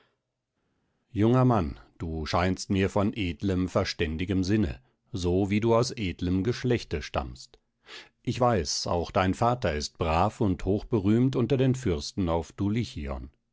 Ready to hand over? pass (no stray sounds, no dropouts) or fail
pass